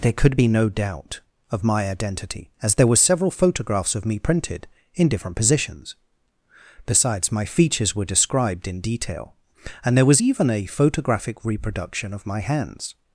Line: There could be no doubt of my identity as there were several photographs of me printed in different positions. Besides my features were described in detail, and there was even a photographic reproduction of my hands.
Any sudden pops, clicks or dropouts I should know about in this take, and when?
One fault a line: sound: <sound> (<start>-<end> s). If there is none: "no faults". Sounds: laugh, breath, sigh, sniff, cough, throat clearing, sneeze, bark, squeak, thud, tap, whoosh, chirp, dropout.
no faults